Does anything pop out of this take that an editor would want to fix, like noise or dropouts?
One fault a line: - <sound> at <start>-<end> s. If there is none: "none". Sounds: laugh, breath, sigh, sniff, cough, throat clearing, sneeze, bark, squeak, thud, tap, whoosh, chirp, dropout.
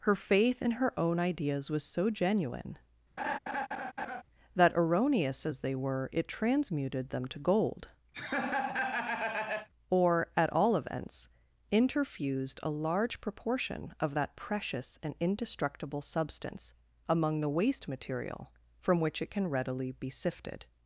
- laugh at 3.2-4.2 s
- laugh at 8.1-9.7 s